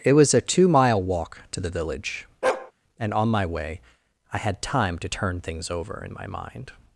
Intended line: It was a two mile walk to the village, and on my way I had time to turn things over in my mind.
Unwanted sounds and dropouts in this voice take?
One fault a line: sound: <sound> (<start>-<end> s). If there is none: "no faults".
sound: bark (2.4-2.7 s)